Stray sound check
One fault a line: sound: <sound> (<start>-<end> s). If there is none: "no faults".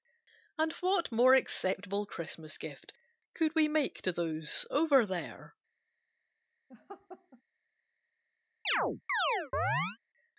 sound: laugh (6.7-7.4 s)
sound: chirp (8.6-10.0 s)